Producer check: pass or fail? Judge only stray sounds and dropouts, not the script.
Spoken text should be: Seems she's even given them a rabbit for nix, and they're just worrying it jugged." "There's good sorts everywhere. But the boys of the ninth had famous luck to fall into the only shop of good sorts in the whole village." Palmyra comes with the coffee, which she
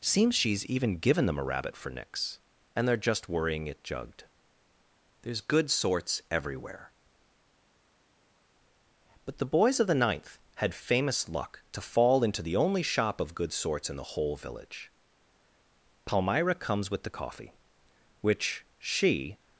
pass